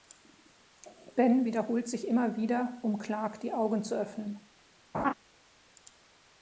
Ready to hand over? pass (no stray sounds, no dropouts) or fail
fail